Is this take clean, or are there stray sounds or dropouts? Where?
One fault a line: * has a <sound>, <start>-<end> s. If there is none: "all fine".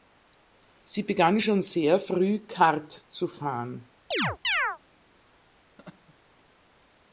* has a chirp, 4.1-4.8 s
* has a laugh, 5.8-6.2 s